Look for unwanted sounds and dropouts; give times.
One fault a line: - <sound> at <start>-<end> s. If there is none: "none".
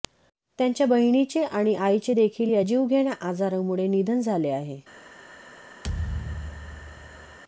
- thud at 5.8-7.4 s